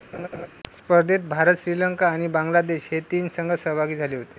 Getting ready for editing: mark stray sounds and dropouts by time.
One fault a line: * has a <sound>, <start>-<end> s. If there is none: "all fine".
* has a laugh, 0.1-0.5 s